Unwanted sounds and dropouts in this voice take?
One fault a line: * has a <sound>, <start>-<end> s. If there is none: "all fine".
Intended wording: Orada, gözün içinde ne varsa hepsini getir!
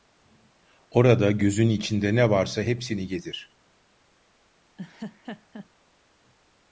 * has a laugh, 4.8-5.7 s